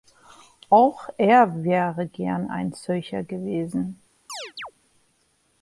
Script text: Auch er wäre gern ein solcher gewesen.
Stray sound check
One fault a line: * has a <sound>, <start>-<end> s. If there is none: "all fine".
* has a chirp, 4.3-4.7 s